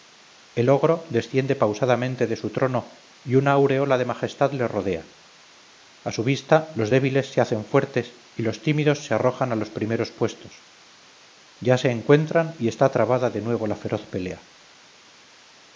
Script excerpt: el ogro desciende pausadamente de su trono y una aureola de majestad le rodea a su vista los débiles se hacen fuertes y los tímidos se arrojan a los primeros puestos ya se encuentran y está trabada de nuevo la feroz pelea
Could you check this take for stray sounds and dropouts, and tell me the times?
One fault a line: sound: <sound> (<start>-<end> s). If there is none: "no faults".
no faults